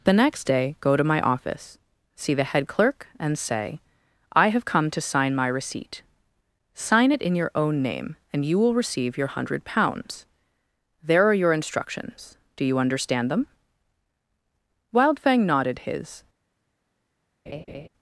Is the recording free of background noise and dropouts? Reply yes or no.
no